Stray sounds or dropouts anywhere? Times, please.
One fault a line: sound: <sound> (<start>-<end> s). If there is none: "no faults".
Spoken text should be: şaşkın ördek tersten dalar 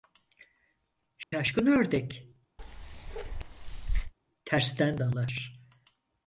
sound: dropout (1.2-1.3 s)
sound: bark (2.6-4.1 s)